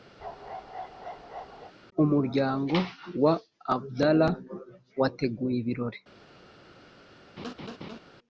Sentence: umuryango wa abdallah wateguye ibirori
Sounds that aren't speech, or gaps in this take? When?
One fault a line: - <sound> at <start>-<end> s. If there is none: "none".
- bark at 0.2-1.7 s
- laugh at 7.4-8.0 s